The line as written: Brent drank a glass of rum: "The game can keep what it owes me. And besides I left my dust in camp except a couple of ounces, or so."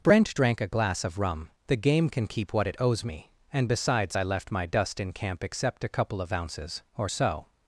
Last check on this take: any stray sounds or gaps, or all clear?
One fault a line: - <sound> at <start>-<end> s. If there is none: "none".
none